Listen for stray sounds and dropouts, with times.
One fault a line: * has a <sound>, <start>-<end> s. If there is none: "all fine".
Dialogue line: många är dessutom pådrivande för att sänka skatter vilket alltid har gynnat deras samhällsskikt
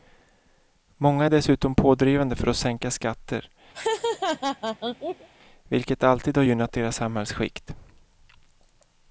* has a laugh, 3.7-5.3 s